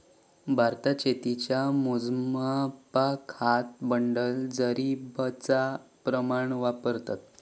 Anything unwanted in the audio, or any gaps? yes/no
no